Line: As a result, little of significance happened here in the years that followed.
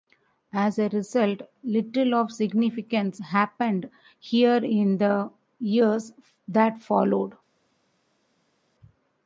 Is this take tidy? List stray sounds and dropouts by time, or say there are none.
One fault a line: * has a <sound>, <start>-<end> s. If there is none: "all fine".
all fine